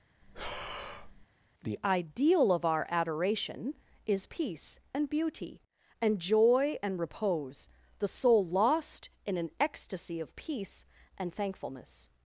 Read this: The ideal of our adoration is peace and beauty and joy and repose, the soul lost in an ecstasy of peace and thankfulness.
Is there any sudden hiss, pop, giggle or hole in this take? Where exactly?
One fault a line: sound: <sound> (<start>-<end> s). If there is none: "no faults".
sound: breath (0.2-1.3 s)